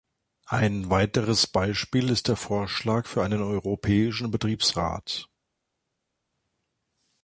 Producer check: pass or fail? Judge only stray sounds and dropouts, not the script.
pass